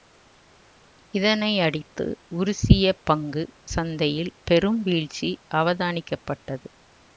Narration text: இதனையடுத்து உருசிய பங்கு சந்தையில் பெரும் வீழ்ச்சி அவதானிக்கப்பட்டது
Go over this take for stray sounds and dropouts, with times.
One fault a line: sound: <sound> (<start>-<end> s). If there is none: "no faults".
no faults